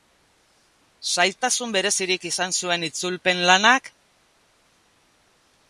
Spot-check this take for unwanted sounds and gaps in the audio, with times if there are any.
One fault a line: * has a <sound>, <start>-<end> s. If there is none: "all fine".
all fine